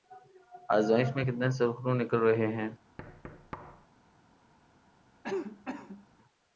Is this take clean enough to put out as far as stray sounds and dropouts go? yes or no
no